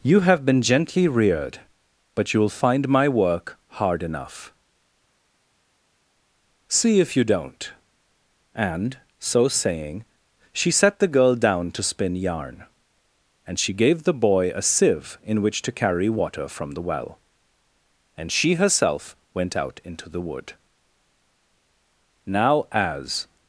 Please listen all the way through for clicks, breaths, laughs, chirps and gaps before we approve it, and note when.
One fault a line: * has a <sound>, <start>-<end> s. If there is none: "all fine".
all fine